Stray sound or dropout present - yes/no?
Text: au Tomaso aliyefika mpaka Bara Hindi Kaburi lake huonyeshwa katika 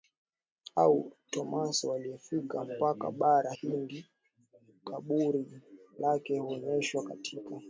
no